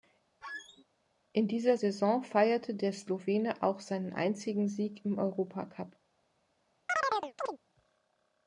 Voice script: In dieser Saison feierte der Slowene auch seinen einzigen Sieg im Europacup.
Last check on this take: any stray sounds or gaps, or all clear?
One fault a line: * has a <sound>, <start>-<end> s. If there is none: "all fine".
* has a squeak, 0.4-0.8 s
* has a chirp, 6.9-7.6 s